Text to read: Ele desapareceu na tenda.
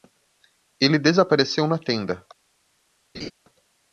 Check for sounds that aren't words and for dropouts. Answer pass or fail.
fail